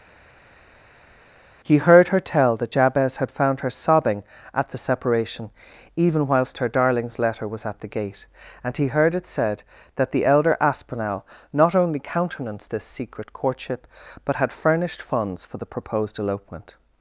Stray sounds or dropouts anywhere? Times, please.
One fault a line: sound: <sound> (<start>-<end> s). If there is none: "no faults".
no faults